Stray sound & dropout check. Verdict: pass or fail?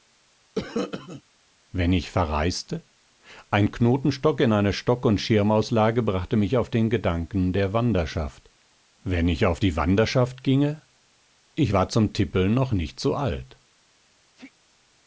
fail